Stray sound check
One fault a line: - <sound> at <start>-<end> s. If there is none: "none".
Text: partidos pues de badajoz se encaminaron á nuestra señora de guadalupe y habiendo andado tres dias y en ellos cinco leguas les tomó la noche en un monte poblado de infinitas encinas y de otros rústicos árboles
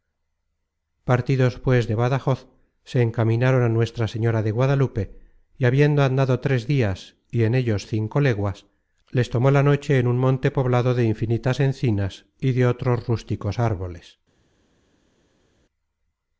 none